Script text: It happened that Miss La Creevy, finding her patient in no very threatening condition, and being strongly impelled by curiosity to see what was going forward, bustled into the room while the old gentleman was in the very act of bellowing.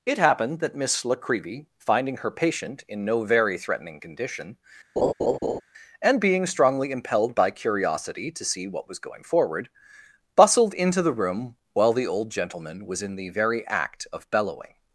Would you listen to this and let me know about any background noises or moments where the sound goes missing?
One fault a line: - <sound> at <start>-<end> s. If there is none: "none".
- laugh at 5.0-5.6 s